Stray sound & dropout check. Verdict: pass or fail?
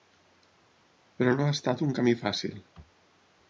pass